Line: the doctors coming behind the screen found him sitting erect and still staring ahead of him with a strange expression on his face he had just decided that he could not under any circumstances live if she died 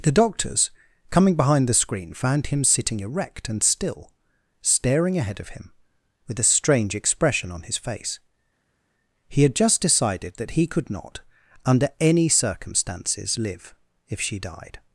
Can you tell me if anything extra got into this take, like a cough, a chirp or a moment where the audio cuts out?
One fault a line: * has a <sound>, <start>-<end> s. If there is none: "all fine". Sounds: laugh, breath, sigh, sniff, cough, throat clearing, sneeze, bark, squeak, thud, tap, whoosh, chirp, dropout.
all fine